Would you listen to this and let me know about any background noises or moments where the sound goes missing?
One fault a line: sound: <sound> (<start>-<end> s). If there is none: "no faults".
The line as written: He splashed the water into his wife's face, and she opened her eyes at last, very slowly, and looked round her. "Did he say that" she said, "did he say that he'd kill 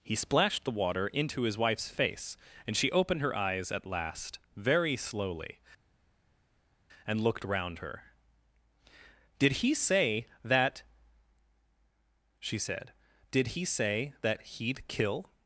no faults